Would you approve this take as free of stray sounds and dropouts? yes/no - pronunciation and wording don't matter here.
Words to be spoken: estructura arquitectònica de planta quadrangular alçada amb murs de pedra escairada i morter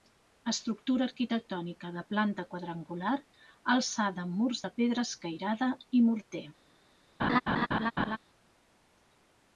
no